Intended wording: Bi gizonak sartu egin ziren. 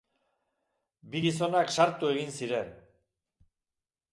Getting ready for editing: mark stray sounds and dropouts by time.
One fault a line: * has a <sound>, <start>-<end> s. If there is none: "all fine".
all fine